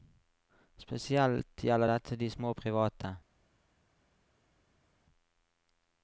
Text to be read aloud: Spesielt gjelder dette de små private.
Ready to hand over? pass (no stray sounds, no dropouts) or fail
pass